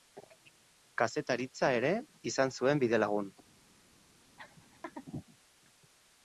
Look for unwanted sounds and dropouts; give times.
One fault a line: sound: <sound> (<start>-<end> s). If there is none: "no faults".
sound: laugh (4.4-5.1 s)